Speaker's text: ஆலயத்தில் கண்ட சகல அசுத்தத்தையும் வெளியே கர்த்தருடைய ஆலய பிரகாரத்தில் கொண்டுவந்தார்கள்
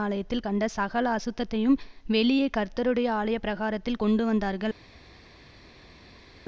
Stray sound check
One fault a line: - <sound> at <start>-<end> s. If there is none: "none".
none